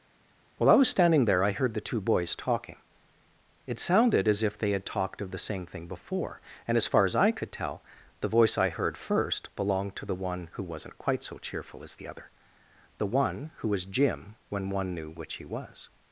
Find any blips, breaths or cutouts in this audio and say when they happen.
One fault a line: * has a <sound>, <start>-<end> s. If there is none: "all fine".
all fine